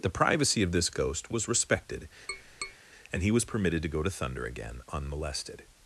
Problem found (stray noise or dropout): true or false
true